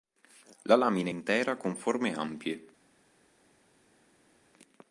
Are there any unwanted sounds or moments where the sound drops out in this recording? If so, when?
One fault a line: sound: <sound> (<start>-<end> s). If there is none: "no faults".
no faults